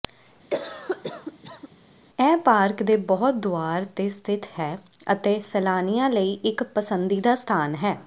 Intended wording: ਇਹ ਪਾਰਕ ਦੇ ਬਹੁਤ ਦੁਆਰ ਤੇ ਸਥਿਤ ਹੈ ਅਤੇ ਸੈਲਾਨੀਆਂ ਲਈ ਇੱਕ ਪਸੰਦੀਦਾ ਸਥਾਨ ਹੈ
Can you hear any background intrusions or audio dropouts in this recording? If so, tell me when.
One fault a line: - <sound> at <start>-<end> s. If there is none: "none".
- cough at 0.5-1.7 s